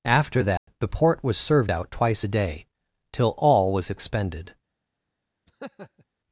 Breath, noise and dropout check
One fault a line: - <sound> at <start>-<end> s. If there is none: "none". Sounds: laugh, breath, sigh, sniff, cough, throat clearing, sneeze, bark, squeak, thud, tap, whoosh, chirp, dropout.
- dropout at 0.6-0.7 s
- laugh at 5.5-6.0 s